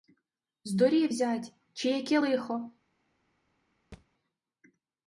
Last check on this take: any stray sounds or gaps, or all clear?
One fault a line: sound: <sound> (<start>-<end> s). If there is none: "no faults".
sound: thud (3.9-4.1 s)